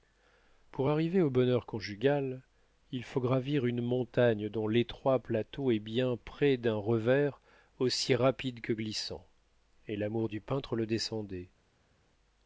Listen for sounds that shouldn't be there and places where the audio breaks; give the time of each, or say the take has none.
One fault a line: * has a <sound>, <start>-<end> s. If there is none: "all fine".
all fine